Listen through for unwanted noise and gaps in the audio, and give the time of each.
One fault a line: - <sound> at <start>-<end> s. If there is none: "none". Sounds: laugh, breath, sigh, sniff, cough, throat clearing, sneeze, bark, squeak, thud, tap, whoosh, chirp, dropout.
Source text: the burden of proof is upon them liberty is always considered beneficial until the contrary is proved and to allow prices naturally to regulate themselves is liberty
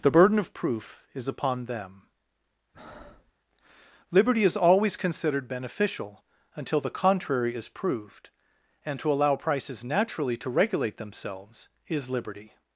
- breath at 2.7-3.3 s